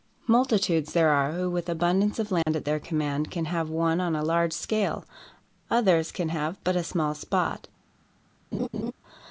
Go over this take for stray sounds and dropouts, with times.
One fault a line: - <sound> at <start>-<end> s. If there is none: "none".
- dropout at 2.4-2.5 s
- laugh at 8.5-8.9 s